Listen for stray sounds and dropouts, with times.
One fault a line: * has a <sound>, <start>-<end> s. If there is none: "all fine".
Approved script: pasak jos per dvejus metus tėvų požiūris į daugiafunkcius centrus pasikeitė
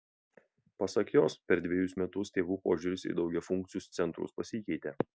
all fine